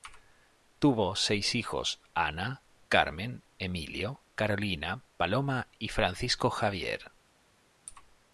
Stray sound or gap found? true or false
false